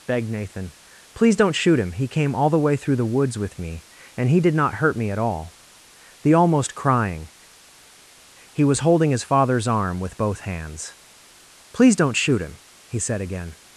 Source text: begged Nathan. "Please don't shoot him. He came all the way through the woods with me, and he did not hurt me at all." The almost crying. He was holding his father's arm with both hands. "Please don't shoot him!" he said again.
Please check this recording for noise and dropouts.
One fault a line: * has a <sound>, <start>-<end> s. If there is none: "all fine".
all fine